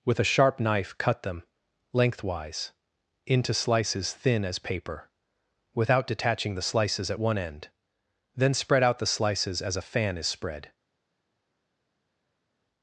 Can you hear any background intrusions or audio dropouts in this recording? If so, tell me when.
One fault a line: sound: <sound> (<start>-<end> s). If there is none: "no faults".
no faults